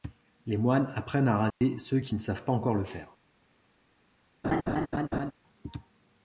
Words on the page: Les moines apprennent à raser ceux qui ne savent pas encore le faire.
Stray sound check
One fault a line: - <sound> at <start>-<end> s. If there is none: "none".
- dropout at 1.5-1.6 s
- laugh at 4.4-5.3 s